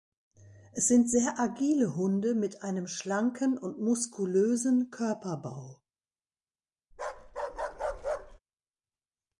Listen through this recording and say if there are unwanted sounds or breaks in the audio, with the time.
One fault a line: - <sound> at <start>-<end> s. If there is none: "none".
- bark at 6.9-8.4 s